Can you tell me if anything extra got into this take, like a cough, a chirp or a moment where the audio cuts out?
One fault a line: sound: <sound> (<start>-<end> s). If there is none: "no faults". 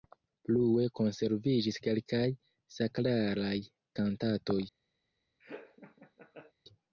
sound: laugh (5.4-6.5 s)